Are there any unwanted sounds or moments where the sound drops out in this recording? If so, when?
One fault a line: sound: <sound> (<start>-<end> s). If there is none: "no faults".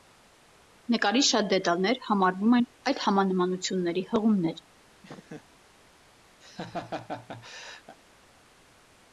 sound: laugh (5.0-5.5 s)
sound: laugh (6.4-8.0 s)